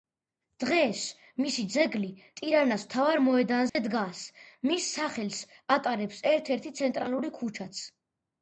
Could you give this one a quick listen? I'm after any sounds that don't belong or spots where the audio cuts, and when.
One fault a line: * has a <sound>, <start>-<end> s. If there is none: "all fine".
* has a dropout, 3.7-3.8 s